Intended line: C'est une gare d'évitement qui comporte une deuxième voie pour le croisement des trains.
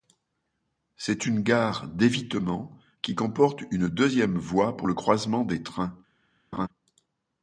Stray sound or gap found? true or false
true